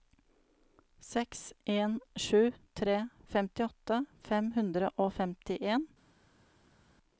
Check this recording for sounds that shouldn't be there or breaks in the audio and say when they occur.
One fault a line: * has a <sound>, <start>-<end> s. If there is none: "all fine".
all fine